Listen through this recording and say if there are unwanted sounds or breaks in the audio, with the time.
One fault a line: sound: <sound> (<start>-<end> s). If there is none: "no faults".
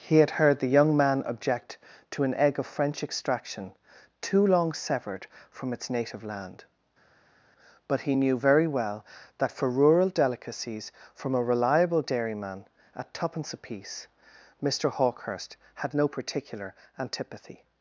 no faults